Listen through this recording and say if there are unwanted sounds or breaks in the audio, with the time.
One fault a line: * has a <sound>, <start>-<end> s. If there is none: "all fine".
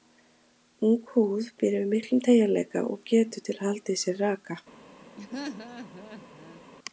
* has a laugh, 5.2-6.6 s